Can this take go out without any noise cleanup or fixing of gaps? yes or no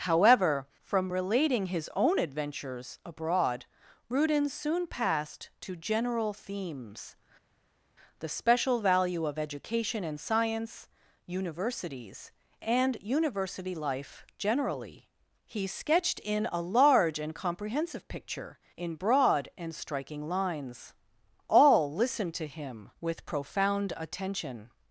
yes